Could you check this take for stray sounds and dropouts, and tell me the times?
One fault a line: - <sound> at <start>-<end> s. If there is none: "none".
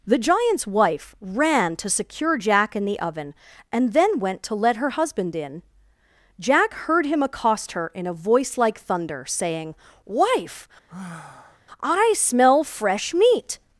- sigh at 10.9-11.6 s